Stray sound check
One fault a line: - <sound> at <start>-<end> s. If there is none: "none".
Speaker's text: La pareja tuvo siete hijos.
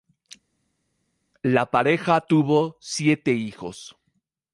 none